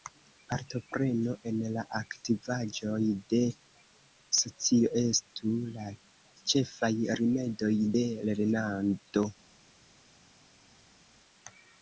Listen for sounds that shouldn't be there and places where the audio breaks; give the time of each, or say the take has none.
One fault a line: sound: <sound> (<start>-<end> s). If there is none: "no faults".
no faults